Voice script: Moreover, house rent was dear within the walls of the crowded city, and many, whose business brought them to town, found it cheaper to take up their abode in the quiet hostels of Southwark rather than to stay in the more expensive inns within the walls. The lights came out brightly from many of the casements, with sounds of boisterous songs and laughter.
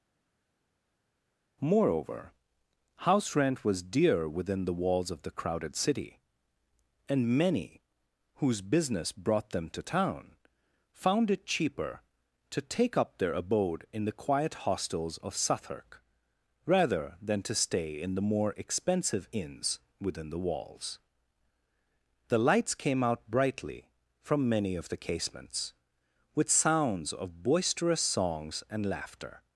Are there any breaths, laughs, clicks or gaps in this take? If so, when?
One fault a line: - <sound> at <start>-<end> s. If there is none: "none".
none